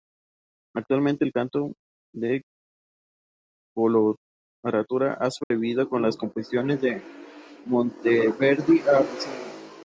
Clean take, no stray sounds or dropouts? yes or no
no